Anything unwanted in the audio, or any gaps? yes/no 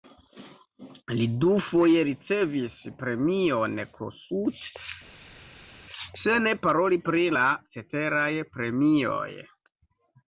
no